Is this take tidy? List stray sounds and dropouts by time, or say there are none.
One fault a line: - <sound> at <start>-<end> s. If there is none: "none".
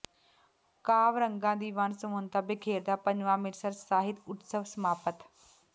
none